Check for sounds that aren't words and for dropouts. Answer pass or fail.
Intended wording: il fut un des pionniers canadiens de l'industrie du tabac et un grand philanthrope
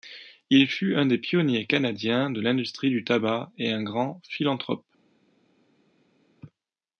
pass